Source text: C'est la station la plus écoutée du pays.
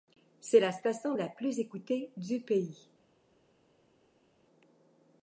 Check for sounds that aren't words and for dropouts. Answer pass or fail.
pass